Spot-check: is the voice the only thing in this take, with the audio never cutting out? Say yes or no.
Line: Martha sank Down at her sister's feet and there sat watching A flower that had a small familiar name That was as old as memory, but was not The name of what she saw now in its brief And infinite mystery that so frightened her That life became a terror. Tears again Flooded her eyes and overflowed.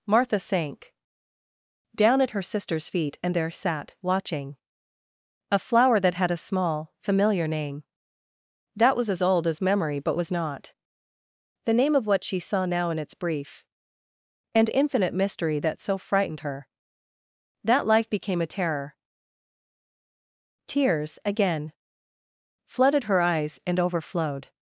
yes